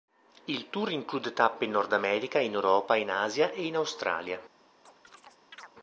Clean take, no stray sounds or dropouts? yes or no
no